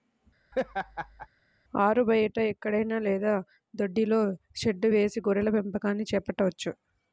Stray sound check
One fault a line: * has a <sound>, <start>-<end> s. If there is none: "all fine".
* has a laugh, 0.5-1.3 s